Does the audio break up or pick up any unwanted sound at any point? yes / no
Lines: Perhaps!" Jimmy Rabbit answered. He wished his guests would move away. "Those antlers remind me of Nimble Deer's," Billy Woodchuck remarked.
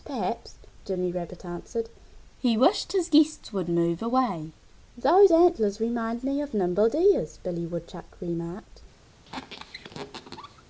yes